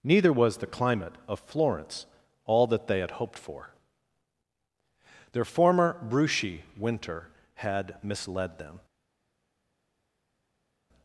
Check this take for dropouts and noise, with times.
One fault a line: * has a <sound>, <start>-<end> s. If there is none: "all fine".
all fine